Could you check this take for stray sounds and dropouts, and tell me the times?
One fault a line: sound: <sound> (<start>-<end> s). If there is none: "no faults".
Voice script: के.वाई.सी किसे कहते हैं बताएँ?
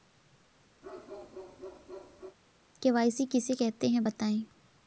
sound: bark (0.8-2.4 s)